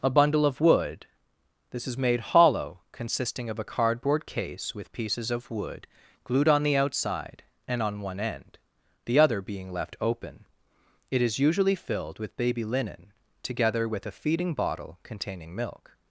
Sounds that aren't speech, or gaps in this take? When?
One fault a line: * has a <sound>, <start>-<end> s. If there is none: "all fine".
all fine